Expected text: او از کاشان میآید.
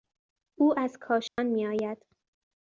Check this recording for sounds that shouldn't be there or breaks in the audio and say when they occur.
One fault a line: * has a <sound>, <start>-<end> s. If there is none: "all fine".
* has a dropout, 1.3-1.4 s